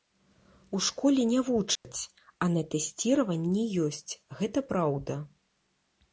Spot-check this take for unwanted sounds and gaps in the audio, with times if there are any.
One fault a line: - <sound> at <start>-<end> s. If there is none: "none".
- dropout at 1.8-1.8 s